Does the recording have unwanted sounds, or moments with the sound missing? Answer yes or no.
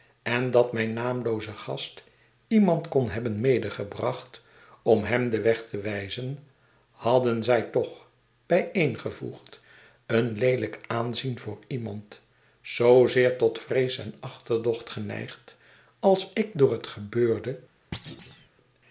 yes